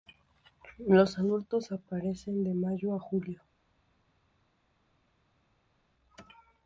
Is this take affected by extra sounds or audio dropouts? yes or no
no